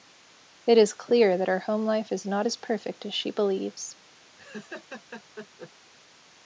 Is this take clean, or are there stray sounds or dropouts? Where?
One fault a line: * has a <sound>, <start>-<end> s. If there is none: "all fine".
* has a laugh, 4.4-5.7 s